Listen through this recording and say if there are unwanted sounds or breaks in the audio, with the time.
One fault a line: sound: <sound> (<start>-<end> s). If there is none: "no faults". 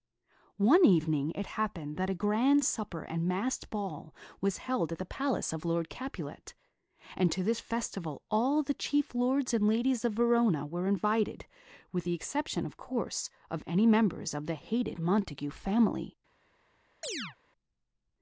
sound: chirp (17.0-17.4 s)